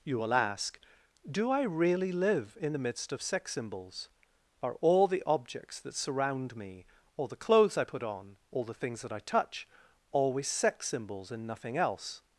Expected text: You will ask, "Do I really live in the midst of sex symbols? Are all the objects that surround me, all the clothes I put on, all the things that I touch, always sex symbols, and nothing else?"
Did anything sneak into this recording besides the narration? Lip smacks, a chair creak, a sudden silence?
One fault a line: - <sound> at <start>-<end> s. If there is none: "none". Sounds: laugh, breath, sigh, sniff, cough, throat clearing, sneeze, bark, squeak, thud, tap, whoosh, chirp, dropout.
none